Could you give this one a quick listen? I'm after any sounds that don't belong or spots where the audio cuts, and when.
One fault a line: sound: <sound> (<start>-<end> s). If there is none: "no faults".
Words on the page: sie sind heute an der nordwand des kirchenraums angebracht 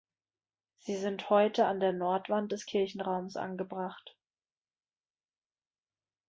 no faults